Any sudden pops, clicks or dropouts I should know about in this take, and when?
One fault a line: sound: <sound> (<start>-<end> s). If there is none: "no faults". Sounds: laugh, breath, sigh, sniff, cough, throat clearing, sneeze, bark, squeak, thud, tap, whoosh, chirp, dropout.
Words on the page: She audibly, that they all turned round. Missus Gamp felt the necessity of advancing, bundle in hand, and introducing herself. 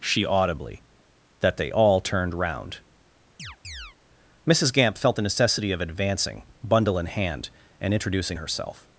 sound: chirp (3.4-4.0 s)